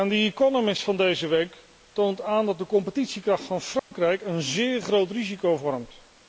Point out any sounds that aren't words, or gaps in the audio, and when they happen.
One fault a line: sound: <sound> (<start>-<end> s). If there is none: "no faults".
sound: dropout (3.8-3.9 s)